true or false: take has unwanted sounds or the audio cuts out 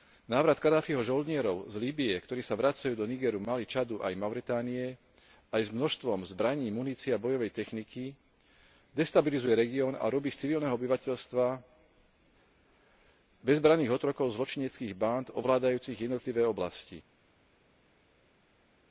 false